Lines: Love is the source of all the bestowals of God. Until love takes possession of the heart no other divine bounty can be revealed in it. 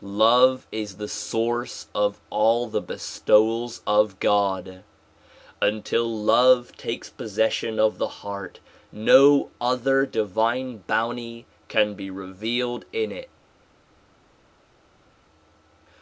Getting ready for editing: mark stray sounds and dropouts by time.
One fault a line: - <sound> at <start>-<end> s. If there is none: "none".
none